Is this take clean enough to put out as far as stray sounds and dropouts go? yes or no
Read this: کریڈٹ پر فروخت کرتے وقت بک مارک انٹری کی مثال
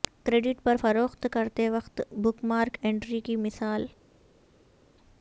yes